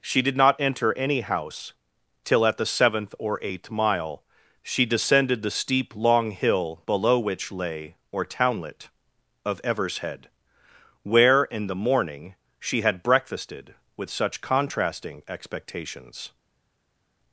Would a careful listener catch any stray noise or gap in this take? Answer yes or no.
no